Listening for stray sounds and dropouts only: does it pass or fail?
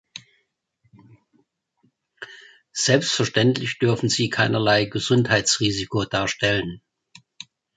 pass